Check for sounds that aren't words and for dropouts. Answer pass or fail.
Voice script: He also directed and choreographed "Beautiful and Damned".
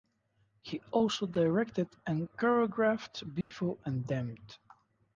fail